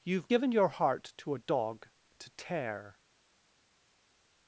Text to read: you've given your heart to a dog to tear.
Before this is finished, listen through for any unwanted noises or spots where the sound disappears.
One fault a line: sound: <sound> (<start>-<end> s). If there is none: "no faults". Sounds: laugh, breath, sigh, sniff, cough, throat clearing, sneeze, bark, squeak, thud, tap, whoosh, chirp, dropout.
no faults